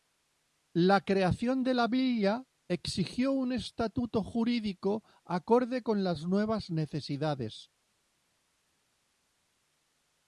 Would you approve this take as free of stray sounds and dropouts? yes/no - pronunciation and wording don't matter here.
yes